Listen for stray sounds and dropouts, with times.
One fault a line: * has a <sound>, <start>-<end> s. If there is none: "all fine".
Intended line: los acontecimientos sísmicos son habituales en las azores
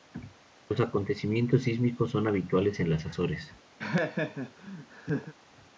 * has a laugh, 3.8-5.3 s